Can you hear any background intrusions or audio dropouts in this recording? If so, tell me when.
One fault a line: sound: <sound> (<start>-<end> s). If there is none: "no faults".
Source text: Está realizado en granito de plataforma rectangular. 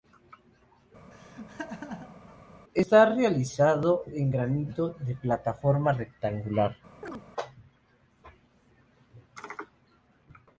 sound: laugh (1.1-2.4 s)
sound: chirp (7.0-7.2 s)